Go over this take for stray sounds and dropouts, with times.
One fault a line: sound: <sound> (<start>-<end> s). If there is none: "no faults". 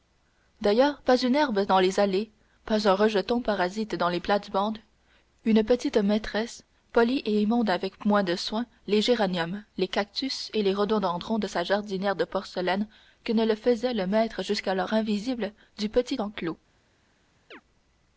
sound: chirp (17.5-17.6 s)